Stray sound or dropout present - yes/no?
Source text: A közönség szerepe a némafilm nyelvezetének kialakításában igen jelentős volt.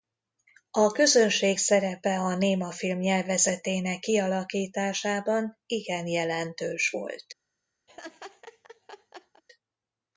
yes